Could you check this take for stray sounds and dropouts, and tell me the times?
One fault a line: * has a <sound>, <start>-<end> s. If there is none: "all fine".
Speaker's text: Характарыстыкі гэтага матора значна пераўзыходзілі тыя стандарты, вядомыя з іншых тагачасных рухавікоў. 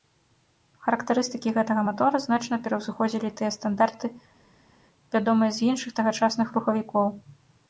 all fine